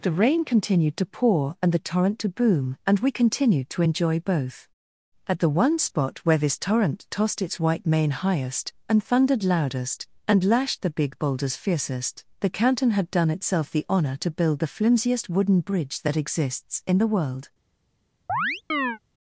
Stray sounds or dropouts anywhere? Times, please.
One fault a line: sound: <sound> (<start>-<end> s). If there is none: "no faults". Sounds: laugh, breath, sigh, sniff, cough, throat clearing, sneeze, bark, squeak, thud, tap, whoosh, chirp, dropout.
sound: chirp (18.3-19.0 s)